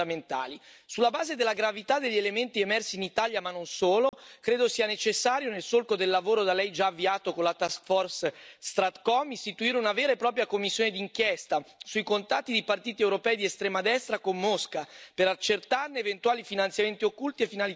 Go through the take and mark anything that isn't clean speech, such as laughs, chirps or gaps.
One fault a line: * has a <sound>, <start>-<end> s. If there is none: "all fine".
* has a dropout, 4.1-4.1 s